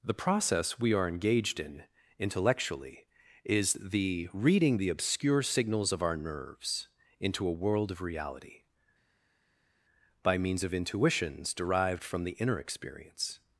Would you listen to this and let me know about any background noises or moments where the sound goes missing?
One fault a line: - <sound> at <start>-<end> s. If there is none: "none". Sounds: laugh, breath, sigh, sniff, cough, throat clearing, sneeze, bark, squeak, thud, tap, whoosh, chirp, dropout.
none